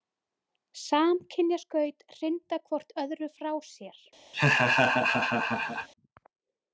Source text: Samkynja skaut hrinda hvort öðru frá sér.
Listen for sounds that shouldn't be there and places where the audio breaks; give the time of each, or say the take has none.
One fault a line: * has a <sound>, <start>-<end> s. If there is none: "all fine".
* has a laugh, 4.3-5.9 s